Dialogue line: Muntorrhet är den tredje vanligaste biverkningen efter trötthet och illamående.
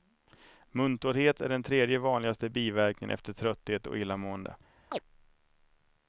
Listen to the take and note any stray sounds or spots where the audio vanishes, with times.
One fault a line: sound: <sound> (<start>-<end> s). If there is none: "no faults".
sound: chirp (4.9-5.0 s)